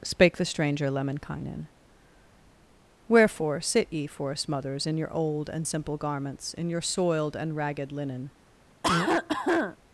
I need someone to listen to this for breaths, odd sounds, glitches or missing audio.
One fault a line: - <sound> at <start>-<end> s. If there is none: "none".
- cough at 8.8-9.8 s